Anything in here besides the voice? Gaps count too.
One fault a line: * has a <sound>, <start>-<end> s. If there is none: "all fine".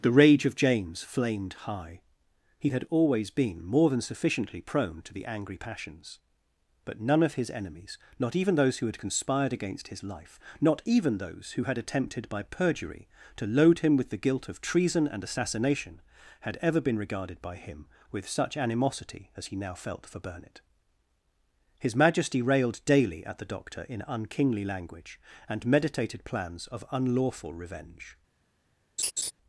* has a laugh, 29.0-29.3 s